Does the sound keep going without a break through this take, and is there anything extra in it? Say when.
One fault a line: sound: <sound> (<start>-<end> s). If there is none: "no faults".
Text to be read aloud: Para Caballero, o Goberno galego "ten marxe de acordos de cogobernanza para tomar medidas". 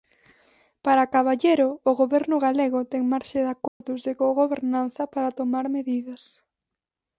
sound: dropout (3.7-3.8 s)